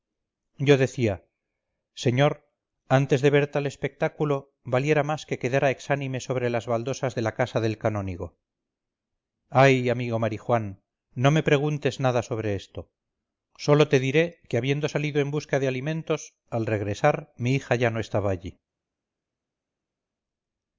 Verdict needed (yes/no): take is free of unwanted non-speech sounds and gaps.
yes